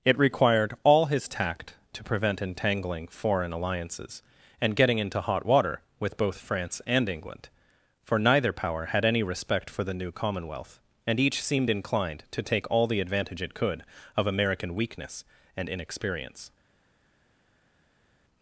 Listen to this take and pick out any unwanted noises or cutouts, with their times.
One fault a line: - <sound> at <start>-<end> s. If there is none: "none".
none